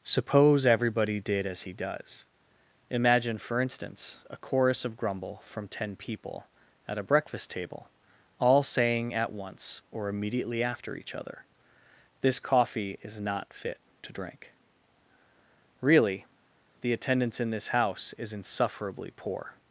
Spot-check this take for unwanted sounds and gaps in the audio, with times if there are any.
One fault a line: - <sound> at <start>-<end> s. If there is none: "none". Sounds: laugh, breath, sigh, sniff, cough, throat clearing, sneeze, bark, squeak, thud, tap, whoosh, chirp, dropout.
none